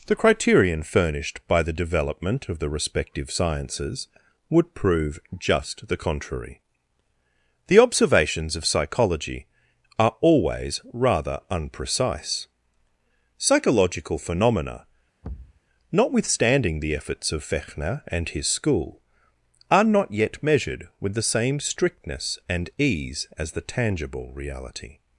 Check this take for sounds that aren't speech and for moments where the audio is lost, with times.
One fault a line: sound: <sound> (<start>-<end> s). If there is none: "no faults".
sound: thud (15.2-15.6 s)